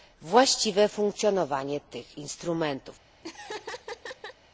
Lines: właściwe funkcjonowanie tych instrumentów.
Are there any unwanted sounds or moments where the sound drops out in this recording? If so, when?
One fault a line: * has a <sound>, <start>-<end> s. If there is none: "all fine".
* has a laugh, 3.2-4.4 s